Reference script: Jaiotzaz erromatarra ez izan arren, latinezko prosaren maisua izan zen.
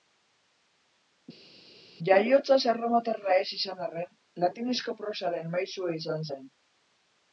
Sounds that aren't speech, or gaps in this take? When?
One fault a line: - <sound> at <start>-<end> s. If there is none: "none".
none